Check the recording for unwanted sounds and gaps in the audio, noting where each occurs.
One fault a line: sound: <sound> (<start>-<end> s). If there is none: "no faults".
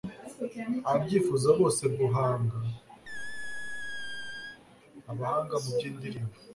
sound: squeak (3.1-4.6 s)